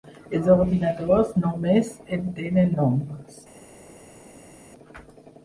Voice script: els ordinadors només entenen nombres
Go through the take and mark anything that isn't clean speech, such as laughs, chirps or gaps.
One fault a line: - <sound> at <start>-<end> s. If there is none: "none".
none